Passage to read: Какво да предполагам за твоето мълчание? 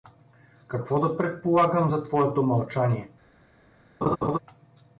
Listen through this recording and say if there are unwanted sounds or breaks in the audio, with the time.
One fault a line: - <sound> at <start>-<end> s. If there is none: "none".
- laugh at 4.0-4.4 s